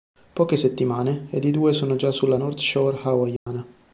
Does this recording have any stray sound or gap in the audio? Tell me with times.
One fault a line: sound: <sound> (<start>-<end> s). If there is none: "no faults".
sound: dropout (3.4-3.5 s)